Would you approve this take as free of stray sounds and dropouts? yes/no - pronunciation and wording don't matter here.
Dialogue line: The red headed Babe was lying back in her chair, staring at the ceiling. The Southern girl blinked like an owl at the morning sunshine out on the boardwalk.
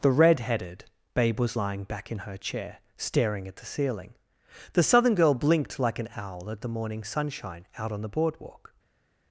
yes